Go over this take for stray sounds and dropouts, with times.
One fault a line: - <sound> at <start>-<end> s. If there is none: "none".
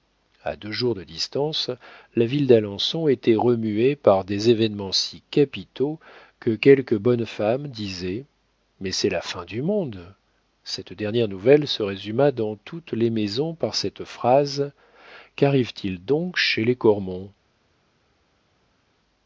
none